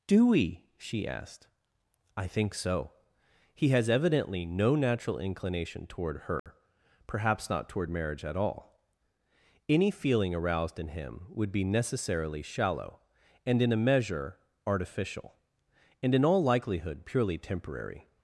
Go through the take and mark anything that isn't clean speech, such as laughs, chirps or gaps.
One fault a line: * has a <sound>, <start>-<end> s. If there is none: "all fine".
* has a dropout, 6.4-6.5 s